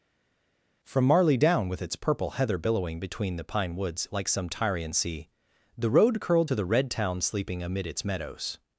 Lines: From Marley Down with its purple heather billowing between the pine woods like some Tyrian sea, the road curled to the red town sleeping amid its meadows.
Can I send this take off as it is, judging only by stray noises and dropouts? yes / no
yes